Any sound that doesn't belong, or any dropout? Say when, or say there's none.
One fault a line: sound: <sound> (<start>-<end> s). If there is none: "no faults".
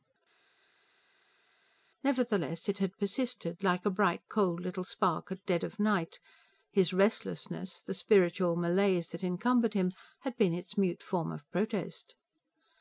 no faults